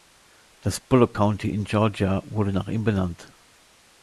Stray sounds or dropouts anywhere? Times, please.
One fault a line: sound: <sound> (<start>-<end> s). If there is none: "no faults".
no faults